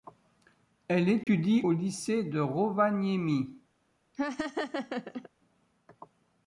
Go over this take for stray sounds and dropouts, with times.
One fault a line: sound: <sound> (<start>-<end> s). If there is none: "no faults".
sound: dropout (1.2-1.3 s)
sound: laugh (4.1-5.3 s)